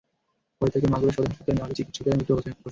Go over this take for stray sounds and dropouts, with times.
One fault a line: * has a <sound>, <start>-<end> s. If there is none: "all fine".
all fine